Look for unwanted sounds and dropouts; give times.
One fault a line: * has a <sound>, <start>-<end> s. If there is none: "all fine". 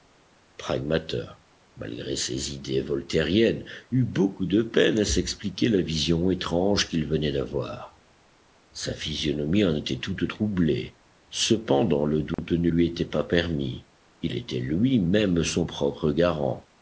* has a dropout, 12.3-12.4 s